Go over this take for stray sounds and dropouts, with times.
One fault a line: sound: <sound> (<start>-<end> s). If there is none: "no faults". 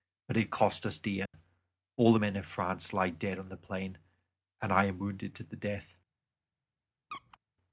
sound: dropout (1.3-1.3 s)
sound: squeak (7.1-7.4 s)